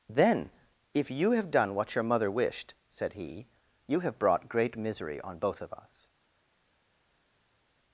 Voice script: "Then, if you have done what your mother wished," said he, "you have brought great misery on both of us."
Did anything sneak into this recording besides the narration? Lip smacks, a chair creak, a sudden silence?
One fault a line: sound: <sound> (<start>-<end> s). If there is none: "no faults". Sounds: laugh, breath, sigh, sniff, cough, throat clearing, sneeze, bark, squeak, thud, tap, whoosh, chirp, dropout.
no faults